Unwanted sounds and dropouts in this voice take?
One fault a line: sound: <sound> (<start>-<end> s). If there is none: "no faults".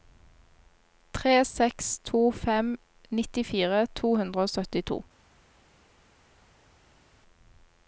no faults